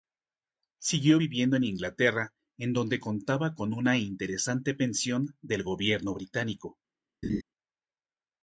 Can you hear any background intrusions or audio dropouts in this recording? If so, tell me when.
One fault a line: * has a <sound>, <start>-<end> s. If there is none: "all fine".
* has a laugh, 7.2-7.4 s